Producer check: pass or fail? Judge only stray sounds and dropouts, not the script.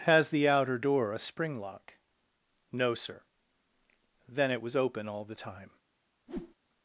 fail